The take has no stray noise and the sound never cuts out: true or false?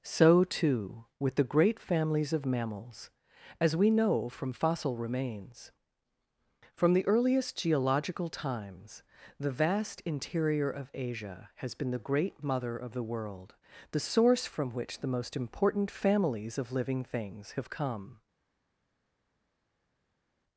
true